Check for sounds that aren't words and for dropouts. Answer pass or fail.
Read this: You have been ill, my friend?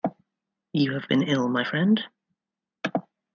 pass